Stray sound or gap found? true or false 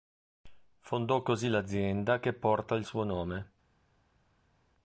false